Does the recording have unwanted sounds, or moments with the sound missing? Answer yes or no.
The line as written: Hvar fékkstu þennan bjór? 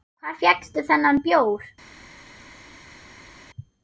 no